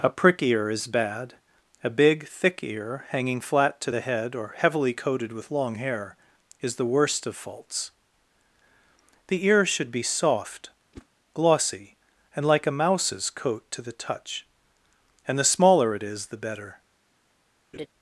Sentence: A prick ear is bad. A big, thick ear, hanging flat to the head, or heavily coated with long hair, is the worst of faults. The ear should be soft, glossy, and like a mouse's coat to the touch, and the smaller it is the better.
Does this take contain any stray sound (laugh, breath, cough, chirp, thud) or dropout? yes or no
yes